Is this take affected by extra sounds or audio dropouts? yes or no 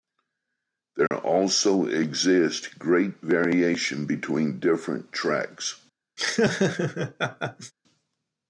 yes